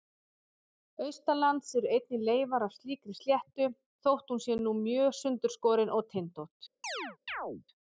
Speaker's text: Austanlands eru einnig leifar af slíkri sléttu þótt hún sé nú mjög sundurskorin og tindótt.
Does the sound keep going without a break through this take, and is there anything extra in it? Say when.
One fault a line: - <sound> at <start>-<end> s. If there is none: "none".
- chirp at 6.8-7.6 s